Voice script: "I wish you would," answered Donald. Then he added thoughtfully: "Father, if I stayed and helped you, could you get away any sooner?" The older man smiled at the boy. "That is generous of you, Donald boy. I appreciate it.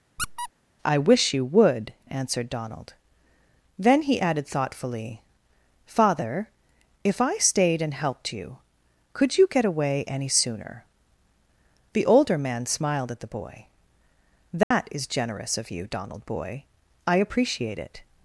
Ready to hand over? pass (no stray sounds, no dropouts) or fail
fail